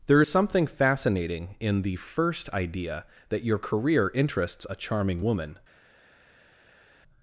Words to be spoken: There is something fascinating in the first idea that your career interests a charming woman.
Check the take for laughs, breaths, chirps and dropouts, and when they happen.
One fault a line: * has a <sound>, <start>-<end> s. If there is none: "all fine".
all fine